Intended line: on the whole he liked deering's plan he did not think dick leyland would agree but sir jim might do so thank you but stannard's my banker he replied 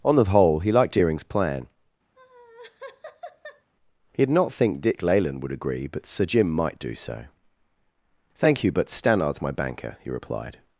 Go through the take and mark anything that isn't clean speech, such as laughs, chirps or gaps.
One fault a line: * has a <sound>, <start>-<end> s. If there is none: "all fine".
* has a laugh, 2.2-3.7 s